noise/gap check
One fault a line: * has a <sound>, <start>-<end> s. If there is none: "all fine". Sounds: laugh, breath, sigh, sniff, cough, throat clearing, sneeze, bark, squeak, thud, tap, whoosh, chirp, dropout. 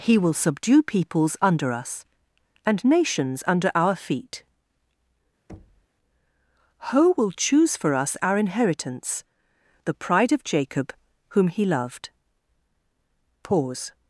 * has a thud, 5.5-5.9 s